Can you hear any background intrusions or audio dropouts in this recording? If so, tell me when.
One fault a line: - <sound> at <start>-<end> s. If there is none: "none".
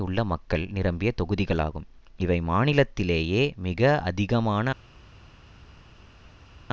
none